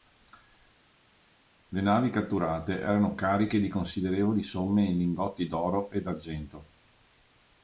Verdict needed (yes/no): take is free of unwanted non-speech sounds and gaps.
yes